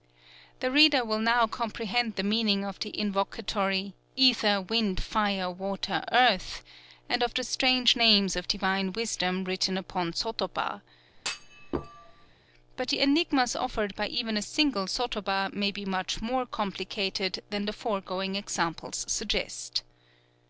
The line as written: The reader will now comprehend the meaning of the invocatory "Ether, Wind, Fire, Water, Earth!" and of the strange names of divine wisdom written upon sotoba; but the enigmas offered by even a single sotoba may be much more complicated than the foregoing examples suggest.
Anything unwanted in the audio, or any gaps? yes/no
yes